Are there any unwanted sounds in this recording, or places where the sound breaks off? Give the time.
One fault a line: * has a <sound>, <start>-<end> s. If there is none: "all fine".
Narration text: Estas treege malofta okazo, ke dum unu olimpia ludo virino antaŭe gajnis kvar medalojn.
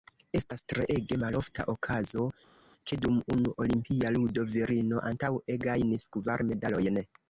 all fine